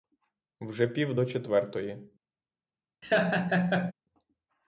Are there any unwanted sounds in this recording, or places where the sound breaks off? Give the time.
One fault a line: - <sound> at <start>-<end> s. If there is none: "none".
- laugh at 3.0-3.9 s